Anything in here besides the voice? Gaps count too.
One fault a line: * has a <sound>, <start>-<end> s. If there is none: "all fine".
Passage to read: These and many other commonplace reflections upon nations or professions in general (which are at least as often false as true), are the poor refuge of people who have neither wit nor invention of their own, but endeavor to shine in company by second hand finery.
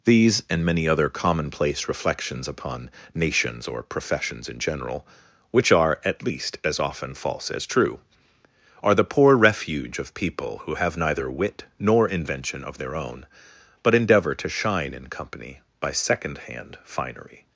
all fine